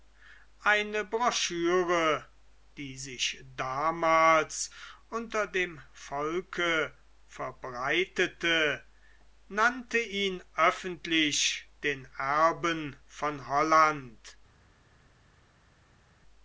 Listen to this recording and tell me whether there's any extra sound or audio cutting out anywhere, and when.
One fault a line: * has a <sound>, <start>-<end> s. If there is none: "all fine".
all fine